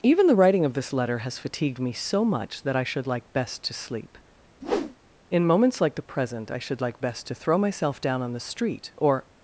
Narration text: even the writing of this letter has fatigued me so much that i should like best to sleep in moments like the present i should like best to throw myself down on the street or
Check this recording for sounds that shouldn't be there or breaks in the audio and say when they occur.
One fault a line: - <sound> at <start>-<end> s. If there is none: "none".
- whoosh at 4.6-5.0 s